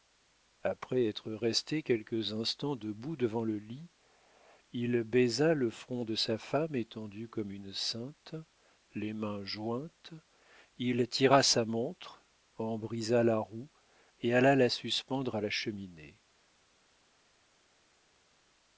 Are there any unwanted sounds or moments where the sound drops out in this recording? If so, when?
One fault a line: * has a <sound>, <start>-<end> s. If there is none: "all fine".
all fine